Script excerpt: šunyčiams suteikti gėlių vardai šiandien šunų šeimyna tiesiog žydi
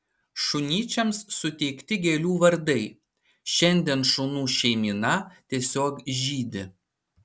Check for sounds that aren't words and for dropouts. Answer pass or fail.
pass